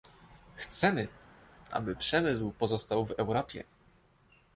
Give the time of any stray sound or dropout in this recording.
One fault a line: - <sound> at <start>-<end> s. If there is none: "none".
none